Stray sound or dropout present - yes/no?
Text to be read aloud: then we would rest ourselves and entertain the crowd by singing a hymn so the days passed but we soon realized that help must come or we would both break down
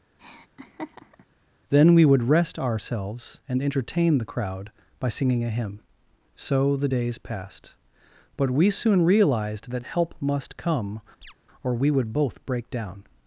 yes